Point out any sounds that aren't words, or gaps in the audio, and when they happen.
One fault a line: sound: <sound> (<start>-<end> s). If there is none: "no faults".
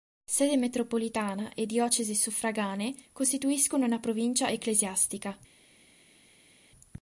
no faults